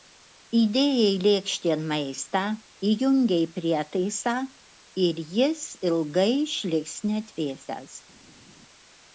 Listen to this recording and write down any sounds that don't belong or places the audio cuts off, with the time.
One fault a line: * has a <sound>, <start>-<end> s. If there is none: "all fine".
all fine